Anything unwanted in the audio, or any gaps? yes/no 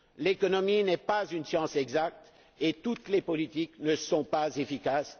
no